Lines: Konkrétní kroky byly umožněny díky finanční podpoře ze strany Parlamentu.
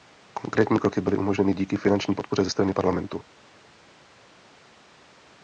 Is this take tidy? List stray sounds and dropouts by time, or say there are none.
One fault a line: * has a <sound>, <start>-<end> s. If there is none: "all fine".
all fine